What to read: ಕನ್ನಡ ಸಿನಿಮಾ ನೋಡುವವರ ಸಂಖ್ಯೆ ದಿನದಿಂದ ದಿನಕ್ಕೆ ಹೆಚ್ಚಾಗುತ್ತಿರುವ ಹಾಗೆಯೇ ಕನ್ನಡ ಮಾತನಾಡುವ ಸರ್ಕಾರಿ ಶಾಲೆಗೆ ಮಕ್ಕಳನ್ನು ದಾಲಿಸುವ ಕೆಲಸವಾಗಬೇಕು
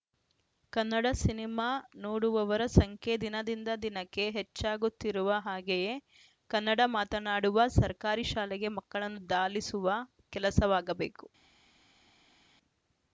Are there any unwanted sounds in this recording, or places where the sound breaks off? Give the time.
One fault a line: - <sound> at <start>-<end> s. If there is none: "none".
none